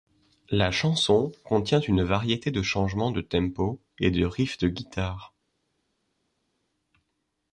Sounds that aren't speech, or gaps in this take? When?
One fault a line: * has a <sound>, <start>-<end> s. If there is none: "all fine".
all fine